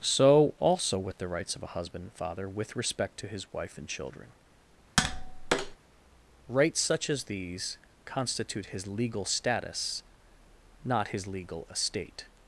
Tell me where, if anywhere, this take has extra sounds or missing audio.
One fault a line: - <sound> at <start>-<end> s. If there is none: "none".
- tap at 5.0-5.8 s